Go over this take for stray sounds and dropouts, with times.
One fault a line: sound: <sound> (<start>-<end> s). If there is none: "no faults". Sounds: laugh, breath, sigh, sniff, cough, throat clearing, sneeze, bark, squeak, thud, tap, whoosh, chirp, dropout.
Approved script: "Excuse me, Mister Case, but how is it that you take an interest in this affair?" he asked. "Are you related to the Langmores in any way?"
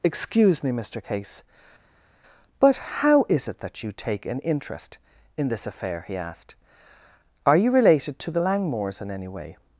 no faults